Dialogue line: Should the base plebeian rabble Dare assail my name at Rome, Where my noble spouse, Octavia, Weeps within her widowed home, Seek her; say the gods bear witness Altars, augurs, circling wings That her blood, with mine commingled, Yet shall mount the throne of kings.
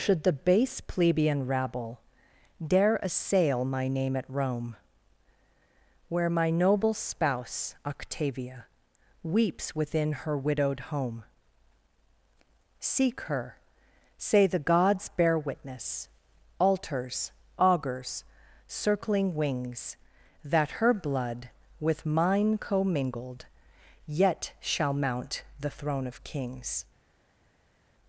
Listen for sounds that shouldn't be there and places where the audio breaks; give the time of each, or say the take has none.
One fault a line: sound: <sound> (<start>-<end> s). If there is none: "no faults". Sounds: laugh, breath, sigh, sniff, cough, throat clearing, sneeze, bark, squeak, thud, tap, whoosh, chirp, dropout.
no faults